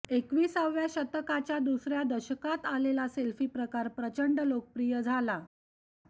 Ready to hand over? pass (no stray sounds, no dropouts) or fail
pass